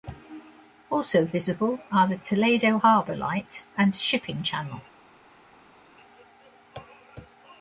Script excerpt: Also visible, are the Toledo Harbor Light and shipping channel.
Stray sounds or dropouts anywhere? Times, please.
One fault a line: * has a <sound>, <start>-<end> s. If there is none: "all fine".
all fine